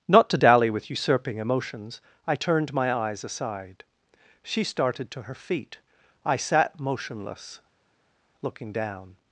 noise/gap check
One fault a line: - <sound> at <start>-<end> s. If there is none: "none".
none